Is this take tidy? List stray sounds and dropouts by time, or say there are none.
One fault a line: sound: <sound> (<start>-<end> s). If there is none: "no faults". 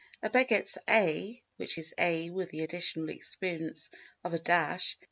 no faults